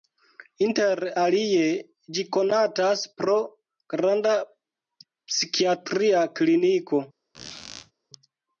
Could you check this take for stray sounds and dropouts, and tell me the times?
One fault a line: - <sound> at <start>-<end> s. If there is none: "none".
- squeak at 7.3-7.9 s